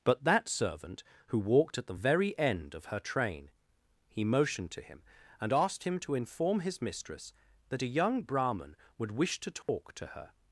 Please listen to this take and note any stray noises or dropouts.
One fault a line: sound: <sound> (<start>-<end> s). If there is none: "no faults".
sound: dropout (9.6-9.7 s)